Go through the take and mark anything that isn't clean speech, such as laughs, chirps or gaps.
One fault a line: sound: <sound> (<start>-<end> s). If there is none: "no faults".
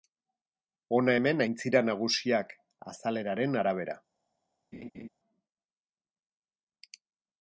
sound: laugh (4.7-5.1 s)